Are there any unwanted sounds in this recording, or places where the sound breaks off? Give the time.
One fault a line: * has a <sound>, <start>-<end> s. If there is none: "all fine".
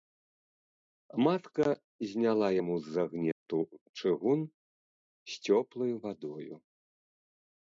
* has a dropout, 3.3-3.5 s